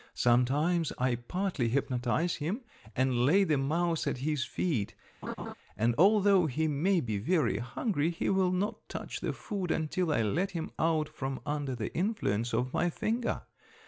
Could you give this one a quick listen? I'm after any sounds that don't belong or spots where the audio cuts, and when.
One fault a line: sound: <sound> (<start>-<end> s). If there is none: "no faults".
sound: laugh (5.2-5.5 s)